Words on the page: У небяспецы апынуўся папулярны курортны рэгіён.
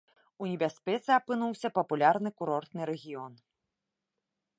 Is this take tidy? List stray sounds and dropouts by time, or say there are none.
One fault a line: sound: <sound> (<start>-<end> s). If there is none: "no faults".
no faults